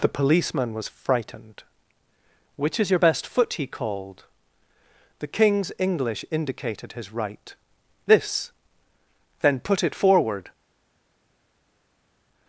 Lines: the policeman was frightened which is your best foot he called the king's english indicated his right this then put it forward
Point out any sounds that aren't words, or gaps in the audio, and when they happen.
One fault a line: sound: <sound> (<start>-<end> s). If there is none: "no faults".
no faults